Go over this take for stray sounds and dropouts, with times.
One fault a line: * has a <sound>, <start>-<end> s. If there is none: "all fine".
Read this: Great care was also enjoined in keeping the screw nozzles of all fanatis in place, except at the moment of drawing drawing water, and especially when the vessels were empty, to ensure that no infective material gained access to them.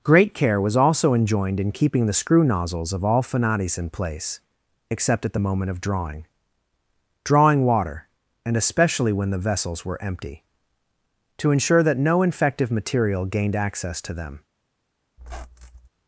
* has a squeak, 15.2-15.9 s